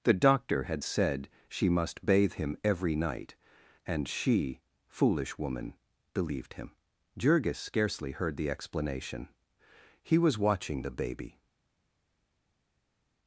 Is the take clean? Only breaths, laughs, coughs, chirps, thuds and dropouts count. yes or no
yes